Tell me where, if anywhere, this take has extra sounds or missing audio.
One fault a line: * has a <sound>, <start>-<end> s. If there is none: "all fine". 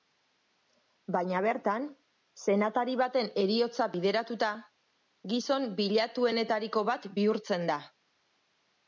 all fine